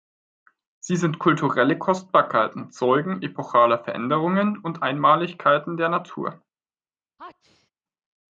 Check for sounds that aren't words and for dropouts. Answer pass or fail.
fail